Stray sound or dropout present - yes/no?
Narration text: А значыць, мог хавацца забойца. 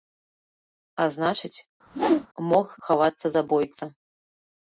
yes